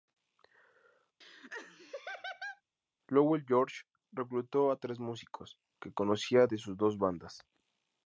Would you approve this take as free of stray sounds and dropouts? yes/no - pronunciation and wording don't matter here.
no